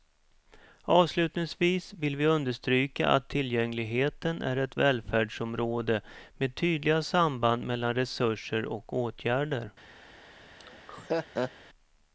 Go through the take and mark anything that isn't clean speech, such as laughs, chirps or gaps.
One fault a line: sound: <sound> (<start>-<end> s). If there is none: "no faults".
sound: laugh (10.6-11.5 s)